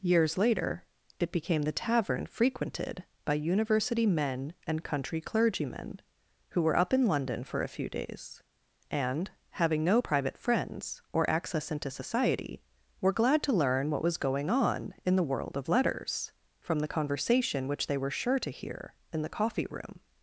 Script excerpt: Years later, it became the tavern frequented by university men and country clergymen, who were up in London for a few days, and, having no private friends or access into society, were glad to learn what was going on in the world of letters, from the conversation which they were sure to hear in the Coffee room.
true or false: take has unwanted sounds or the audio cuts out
false